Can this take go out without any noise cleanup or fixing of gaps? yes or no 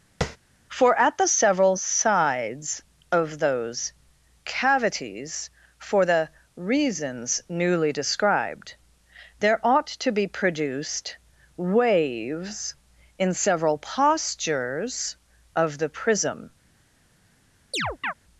no